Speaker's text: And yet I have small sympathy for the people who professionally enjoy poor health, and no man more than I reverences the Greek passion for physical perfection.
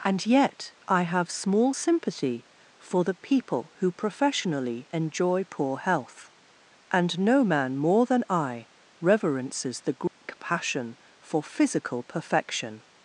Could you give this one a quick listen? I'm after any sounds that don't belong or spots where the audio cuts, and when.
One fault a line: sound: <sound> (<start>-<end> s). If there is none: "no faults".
sound: dropout (10.1-10.2 s)